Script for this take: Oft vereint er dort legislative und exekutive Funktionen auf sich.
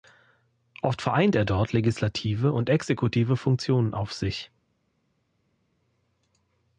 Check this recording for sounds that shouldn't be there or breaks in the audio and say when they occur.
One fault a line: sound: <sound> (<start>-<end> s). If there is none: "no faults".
no faults